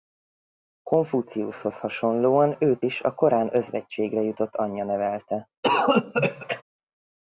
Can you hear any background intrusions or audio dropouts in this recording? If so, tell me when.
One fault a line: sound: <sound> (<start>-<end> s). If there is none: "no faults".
sound: cough (5.6-6.6 s)